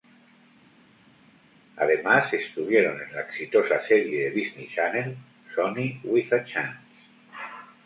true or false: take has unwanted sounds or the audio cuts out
false